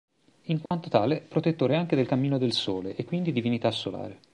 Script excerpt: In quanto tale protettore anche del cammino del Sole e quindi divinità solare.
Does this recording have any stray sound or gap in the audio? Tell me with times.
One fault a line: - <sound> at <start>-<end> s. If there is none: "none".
- dropout at 0.7-0.7 s